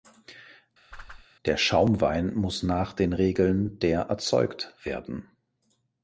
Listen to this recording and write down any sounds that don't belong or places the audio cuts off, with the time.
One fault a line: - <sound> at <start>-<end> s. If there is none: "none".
- whoosh at 0.9-1.3 s